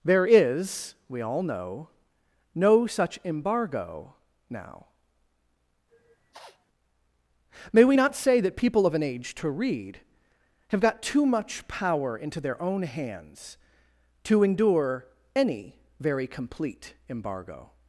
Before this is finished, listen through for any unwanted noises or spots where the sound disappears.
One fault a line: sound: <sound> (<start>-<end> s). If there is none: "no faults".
sound: sniff (5.9-6.7 s)